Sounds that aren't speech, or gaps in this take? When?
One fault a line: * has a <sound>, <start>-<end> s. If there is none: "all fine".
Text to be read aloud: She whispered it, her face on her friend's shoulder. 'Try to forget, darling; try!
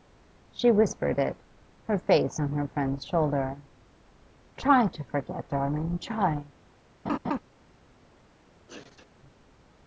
* has a laugh, 7.1-7.4 s
* has a sneeze, 8.7-9.1 s